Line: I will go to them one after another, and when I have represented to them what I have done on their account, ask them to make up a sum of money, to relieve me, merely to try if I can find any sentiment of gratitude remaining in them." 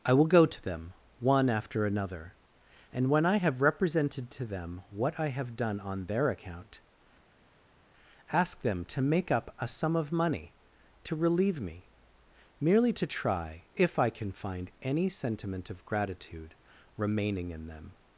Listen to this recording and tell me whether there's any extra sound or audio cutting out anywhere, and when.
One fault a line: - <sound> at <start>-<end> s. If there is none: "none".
none